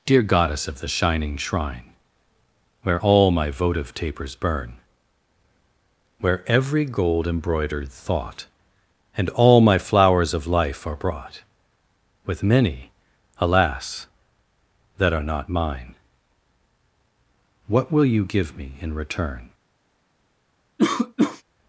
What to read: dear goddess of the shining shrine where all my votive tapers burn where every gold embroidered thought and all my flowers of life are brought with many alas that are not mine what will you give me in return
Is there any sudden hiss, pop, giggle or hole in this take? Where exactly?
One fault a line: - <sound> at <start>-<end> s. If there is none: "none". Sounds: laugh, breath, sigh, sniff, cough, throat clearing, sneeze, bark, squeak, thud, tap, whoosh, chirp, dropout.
- cough at 20.8-21.4 s